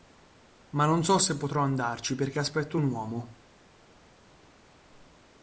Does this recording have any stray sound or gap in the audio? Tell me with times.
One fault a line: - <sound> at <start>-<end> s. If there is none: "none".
none